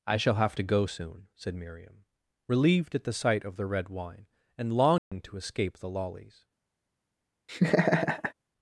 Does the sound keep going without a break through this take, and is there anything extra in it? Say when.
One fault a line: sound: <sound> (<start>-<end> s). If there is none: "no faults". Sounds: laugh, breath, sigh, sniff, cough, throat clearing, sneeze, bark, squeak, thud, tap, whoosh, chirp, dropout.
sound: dropout (5.0-5.1 s)
sound: laugh (7.5-8.3 s)